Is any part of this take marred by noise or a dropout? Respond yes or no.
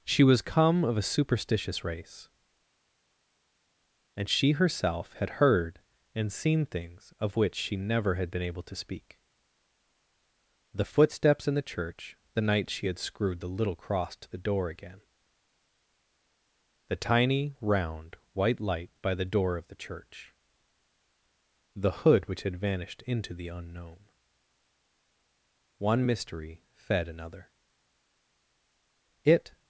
no